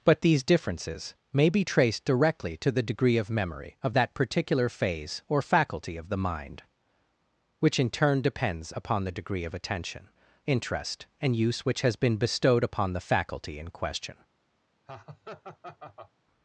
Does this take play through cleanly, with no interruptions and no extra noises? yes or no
no